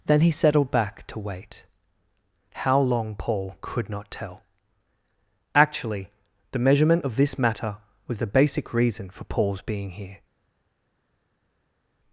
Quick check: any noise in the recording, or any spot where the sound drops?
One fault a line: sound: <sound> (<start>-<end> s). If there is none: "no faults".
no faults